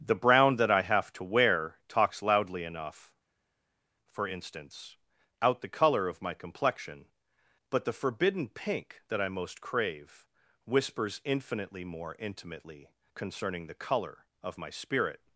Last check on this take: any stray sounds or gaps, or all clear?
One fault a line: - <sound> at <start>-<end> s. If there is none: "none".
none